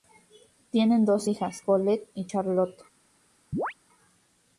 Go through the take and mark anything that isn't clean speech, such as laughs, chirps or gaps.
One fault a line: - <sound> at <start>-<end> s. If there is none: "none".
- chirp at 3.5-3.7 s